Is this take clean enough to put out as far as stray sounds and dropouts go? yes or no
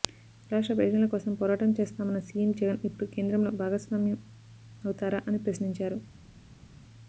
yes